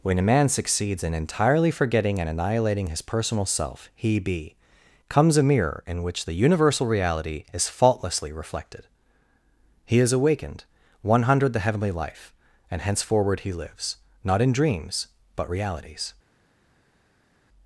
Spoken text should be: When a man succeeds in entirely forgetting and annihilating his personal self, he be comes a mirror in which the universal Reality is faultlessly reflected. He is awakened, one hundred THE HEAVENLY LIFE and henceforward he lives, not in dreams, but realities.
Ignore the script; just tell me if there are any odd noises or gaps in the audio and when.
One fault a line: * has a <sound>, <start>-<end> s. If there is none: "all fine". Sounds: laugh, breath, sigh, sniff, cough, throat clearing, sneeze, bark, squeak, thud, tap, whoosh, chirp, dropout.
all fine